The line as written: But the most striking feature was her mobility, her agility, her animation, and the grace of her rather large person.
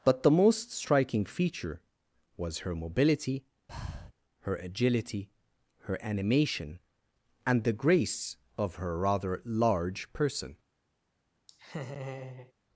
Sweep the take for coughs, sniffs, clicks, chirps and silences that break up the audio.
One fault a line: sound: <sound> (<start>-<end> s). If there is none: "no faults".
sound: breath (3.7-4.1 s)
sound: laugh (11.5-12.5 s)